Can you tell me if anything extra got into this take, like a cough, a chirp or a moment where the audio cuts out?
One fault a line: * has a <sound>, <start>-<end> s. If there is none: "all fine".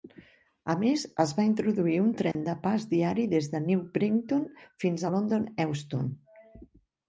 * has a dropout, 2.3-2.4 s